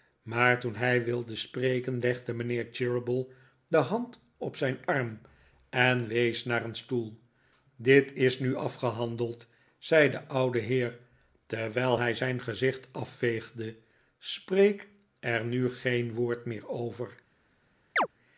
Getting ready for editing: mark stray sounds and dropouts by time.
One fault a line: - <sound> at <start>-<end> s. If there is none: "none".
- chirp at 18.0-18.1 s